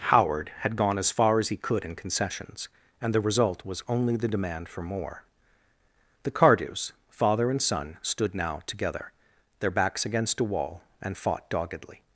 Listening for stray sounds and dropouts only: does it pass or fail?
pass